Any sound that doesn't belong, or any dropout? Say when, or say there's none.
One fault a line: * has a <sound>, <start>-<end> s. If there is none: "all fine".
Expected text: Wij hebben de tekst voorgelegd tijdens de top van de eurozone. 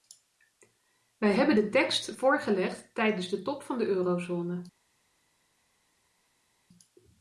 all fine